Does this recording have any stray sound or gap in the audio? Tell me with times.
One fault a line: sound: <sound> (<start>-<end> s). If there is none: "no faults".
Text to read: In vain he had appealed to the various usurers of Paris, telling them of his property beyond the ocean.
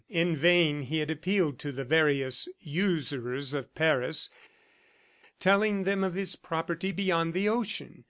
no faults